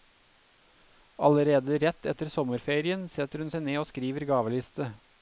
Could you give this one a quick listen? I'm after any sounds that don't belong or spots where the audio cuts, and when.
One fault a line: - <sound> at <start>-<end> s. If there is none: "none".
none